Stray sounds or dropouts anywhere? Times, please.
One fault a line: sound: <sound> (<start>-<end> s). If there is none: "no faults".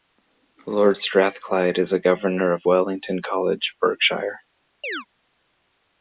sound: chirp (4.8-5.1 s)